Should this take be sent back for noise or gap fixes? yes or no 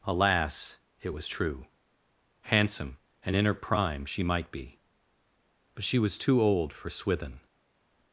no